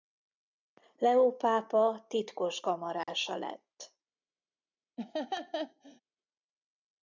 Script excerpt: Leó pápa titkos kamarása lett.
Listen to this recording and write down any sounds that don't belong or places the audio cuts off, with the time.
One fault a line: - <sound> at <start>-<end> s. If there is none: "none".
- dropout at 3.0-3.1 s
- laugh at 5.0-6.0 s